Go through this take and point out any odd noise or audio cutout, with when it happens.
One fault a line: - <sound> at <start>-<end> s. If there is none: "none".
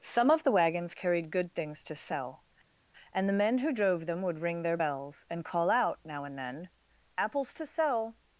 none